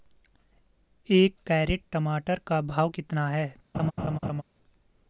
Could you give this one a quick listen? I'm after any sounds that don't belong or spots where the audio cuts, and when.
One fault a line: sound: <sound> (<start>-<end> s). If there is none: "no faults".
sound: laugh (3.7-4.4 s)